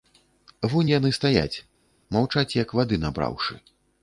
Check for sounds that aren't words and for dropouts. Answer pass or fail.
pass